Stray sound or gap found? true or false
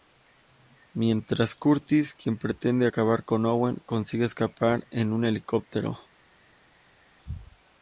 false